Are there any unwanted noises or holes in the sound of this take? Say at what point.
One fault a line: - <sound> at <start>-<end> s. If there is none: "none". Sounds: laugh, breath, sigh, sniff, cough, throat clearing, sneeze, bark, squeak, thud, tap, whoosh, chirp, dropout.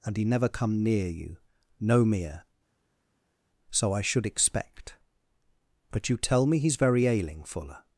none